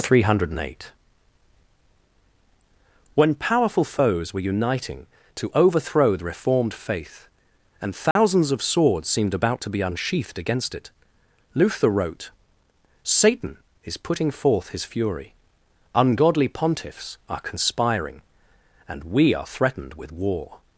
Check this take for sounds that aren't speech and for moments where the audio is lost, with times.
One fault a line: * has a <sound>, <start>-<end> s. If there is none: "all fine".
* has a dropout, 8.1-8.2 s